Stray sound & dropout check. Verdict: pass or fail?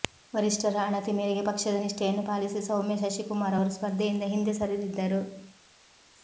pass